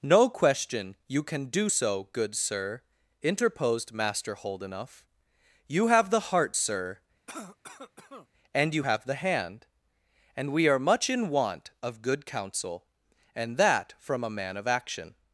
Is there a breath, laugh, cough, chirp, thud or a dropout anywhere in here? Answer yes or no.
yes